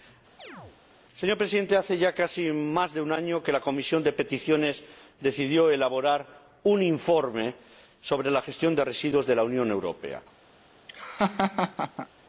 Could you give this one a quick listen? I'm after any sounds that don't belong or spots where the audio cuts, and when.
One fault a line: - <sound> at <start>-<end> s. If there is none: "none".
- chirp at 0.4-0.8 s
- laugh at 10.9-12.1 s